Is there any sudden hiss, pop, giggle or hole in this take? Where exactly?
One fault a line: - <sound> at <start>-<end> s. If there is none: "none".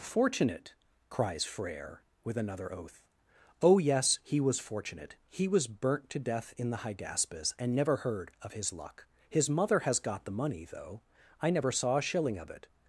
none